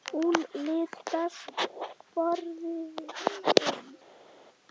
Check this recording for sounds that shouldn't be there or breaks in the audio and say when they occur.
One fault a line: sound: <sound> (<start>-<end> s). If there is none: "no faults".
no faults